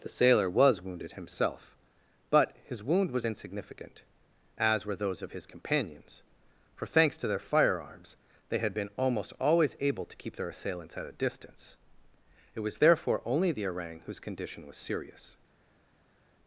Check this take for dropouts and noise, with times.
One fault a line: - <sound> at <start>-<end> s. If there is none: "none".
none